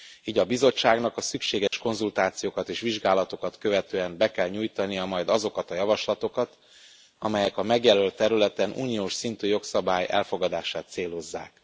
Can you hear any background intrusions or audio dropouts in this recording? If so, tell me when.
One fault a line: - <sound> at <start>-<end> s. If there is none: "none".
- dropout at 1.7-1.7 s